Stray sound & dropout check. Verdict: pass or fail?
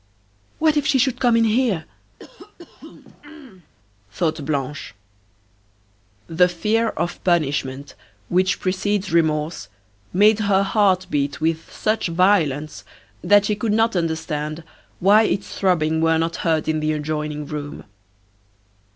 fail